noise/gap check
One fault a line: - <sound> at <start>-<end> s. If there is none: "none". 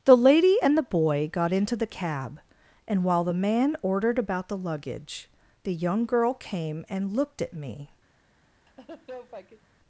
- laugh at 8.7-9.7 s